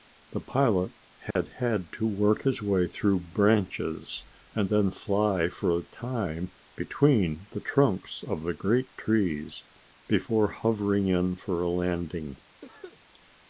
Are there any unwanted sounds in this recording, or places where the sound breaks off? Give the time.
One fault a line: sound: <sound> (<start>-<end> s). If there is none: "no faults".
sound: dropout (1.3-1.4 s)
sound: cough (12.6-13.0 s)